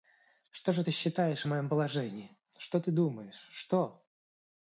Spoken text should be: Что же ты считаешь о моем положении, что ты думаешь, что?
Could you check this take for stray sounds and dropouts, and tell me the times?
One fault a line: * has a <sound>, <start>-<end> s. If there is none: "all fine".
all fine